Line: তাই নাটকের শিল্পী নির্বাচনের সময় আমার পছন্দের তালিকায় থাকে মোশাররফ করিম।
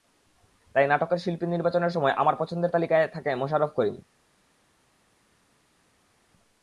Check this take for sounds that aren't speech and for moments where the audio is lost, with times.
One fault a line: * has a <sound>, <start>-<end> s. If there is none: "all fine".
all fine